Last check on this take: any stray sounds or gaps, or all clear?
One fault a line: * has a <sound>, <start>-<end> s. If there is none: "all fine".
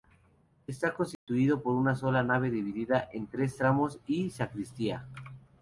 * has a dropout, 1.1-1.3 s